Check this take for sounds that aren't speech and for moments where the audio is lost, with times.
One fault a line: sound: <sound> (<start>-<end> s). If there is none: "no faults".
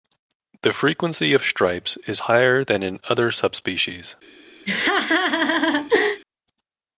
sound: laugh (4.7-6.2 s)